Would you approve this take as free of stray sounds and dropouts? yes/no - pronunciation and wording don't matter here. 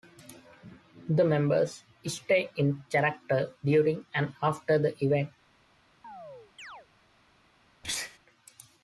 no